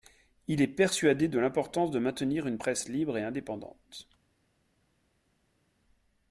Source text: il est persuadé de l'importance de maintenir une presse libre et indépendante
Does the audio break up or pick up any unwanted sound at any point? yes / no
no